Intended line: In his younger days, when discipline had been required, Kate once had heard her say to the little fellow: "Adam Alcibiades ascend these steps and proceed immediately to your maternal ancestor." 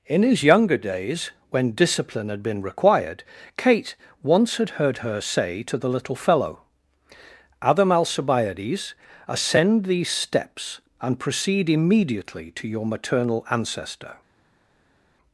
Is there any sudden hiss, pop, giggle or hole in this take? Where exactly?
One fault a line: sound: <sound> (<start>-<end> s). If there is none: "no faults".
no faults